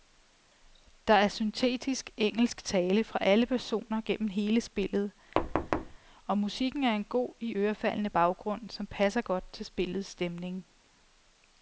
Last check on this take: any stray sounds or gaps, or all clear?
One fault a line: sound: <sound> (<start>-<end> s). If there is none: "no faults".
sound: thud (5.4-6.0 s)